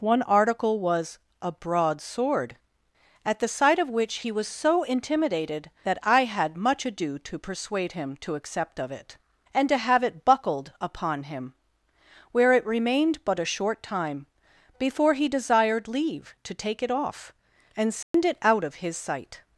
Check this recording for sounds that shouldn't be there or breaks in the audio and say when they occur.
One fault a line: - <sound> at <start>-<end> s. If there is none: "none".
- dropout at 18.0-18.1 s